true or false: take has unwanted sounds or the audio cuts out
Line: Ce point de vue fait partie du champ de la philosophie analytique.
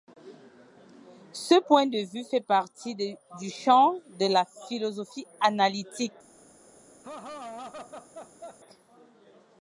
true